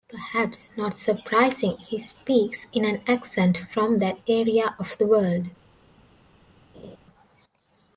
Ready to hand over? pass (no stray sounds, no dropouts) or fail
fail